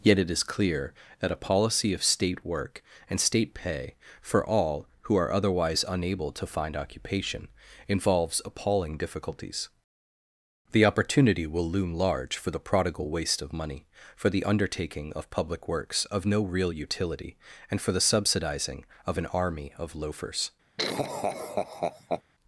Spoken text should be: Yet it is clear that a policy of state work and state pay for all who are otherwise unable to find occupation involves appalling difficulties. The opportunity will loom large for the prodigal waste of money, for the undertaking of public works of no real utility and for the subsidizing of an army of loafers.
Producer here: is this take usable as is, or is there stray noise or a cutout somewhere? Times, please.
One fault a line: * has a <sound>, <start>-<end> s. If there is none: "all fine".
* has a laugh, 20.8-22.2 s